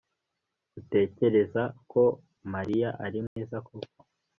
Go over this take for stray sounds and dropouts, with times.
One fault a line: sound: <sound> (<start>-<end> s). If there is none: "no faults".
sound: dropout (3.3-3.4 s)